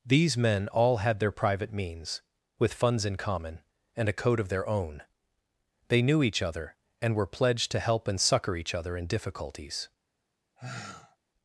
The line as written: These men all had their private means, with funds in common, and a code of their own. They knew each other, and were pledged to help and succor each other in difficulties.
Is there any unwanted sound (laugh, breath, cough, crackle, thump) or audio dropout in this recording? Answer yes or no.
yes